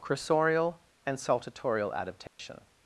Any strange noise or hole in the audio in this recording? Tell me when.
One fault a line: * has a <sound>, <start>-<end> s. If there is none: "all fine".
* has a dropout, 2.3-2.4 s